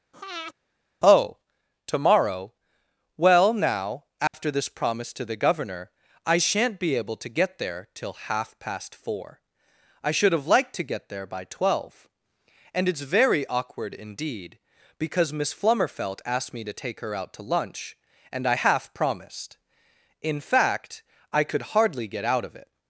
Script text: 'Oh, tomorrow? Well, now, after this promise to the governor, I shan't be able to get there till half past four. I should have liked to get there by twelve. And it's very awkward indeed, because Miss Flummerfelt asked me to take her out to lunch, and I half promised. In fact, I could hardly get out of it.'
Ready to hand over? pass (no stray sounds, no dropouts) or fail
fail